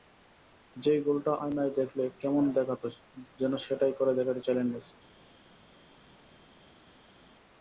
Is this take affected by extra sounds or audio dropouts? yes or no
no